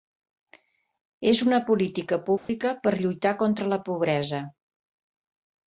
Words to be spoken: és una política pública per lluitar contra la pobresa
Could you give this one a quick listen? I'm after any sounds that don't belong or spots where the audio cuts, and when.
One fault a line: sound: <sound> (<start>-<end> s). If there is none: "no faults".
sound: dropout (2.4-2.5 s)